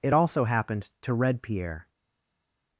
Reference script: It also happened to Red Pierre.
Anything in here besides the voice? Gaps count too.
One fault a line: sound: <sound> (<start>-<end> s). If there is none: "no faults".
no faults